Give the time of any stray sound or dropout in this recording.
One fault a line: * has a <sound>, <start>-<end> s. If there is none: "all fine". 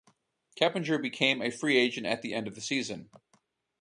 all fine